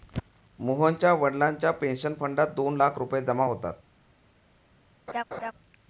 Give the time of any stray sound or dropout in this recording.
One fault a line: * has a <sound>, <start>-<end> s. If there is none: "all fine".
* has a laugh, 5.1-5.5 s